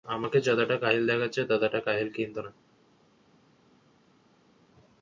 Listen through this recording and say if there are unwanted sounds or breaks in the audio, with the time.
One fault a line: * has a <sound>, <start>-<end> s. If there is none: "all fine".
all fine